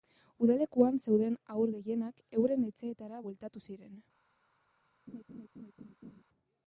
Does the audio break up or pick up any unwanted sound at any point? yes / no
yes